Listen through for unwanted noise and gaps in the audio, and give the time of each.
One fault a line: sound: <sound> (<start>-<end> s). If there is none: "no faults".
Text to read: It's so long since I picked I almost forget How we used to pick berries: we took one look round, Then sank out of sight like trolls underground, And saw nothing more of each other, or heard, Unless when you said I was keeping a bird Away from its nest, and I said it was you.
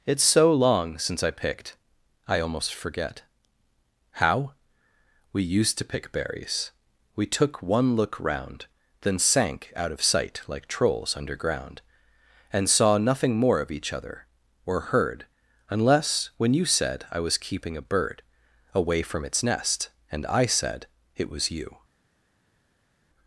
no faults